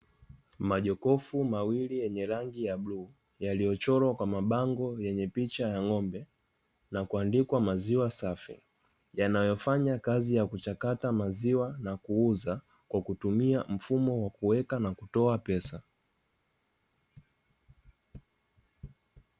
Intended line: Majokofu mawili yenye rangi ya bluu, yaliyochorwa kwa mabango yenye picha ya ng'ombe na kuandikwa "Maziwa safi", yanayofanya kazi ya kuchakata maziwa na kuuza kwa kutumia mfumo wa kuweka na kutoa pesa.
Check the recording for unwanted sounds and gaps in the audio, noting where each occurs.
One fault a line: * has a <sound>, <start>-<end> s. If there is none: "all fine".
all fine